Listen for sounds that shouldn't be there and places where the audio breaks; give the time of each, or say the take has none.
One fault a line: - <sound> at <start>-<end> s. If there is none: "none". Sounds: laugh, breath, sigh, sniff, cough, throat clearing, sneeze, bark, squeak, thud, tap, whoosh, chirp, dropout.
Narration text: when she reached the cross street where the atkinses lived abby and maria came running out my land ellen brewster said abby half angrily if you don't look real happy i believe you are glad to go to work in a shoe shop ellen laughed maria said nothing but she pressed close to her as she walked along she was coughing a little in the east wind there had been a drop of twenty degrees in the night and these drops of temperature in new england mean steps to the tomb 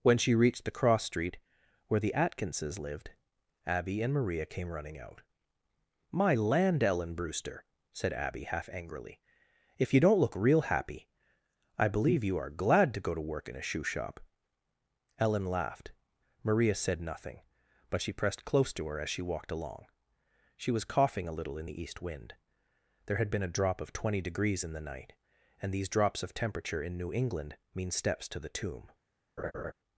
- laugh at 29.4-29.7 s